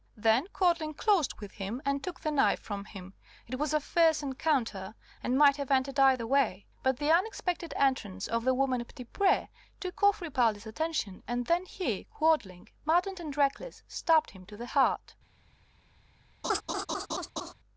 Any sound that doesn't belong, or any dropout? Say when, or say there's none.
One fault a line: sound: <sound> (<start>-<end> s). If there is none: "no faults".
sound: laugh (16.4-17.5 s)